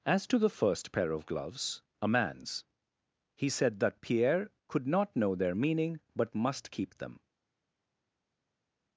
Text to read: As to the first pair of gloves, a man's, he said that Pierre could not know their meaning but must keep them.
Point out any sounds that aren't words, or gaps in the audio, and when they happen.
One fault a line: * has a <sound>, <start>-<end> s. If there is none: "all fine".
all fine